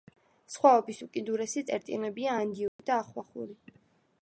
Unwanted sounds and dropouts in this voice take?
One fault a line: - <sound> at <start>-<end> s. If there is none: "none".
- dropout at 2.7-2.8 s